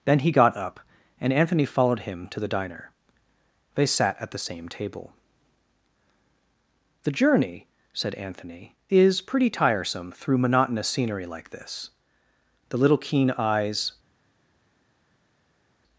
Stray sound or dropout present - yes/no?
no